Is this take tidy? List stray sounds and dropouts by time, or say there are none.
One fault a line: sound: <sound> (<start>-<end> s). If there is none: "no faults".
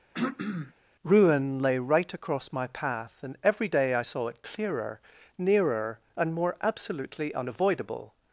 sound: throat clearing (0.1-0.7 s)